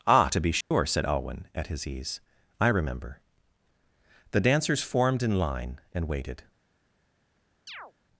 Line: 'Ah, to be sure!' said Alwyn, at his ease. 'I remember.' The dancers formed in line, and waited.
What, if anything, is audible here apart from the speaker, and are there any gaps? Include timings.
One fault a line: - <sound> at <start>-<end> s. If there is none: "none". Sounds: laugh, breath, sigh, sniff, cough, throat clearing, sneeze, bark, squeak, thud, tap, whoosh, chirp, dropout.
- dropout at 0.6-0.7 s
- chirp at 7.7-7.9 s